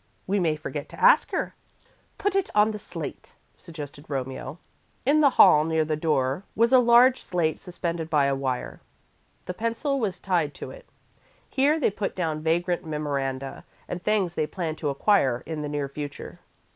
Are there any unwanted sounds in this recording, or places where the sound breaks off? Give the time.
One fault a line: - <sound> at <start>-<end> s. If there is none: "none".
none